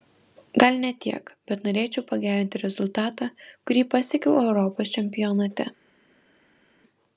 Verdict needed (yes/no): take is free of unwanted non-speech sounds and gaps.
yes